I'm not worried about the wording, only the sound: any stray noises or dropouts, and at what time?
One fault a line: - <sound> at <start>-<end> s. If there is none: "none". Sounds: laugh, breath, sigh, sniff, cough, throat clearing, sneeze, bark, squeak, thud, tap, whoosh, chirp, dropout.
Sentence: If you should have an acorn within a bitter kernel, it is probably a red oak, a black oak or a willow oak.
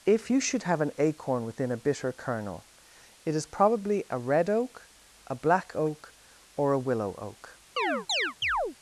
- chirp at 7.8-8.8 s